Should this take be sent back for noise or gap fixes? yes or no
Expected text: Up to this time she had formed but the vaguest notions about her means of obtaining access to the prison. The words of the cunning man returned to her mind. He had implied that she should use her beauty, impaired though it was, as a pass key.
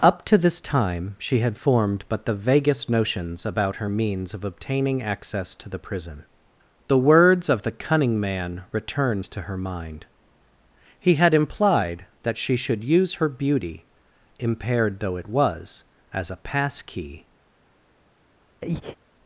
yes